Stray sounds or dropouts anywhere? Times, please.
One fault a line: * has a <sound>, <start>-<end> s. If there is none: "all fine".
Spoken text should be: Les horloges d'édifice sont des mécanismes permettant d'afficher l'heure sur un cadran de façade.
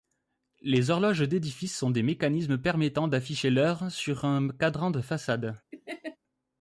* has a laugh, 5.7-6.2 s